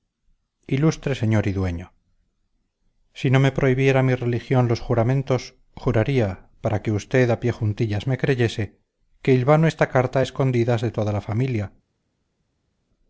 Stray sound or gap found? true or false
false